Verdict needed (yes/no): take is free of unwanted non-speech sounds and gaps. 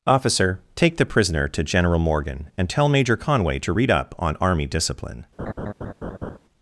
no